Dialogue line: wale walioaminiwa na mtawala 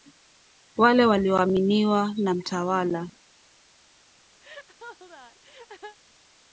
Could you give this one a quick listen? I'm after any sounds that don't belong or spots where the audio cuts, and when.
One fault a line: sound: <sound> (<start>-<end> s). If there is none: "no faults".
sound: laugh (4.4-6.0 s)